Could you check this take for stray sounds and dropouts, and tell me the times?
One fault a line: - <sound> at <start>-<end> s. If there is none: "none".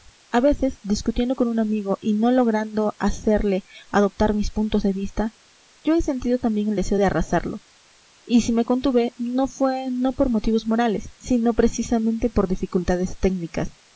none